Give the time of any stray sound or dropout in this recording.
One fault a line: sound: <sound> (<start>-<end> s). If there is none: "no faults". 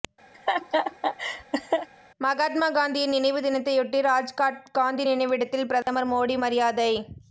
sound: laugh (0.3-1.9 s)
sound: dropout (5.8-5.9 s)